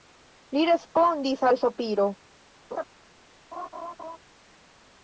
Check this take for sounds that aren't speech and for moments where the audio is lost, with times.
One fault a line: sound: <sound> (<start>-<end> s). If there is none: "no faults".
sound: laugh (2.7-2.8 s)
sound: laugh (3.5-4.2 s)